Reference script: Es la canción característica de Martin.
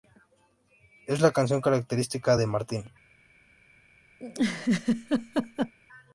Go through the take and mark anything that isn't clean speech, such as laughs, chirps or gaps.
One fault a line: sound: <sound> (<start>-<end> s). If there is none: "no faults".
sound: laugh (4.2-5.7 s)